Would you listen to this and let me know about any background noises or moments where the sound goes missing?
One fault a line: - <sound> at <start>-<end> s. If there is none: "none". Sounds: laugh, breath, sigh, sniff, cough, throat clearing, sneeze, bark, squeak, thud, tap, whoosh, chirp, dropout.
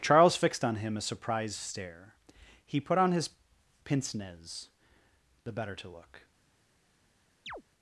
- chirp at 7.5-7.6 s